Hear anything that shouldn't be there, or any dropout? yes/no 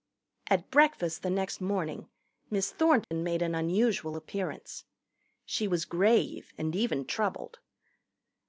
yes